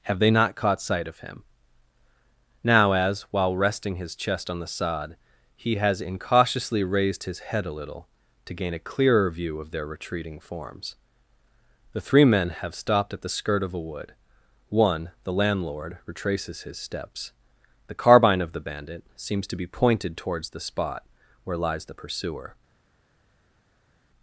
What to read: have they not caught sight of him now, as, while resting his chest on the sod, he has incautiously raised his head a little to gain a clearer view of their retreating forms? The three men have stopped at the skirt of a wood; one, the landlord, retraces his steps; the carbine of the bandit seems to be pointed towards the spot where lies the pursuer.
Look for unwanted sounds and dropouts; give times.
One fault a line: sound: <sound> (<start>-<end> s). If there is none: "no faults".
no faults